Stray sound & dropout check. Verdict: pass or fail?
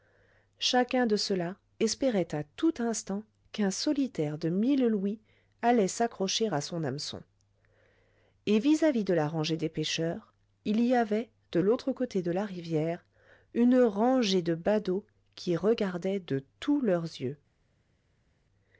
pass